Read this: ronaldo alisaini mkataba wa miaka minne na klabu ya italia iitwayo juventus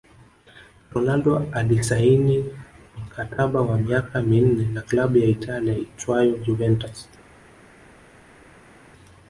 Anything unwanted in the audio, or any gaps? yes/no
no